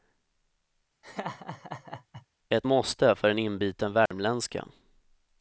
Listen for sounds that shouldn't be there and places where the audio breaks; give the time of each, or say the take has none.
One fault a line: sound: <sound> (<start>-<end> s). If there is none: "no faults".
sound: laugh (1.0-2.3 s)
sound: dropout (4.1-4.1 s)